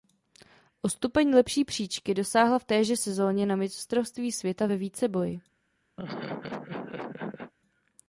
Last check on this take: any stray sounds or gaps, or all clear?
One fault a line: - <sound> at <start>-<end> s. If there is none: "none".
- laugh at 6.0-7.5 s